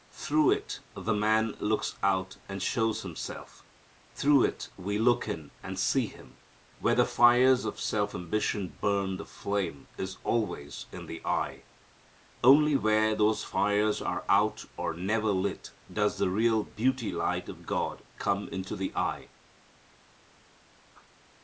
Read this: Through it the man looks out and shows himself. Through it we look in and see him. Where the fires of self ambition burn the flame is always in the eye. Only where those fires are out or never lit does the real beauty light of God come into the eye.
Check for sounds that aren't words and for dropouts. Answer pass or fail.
pass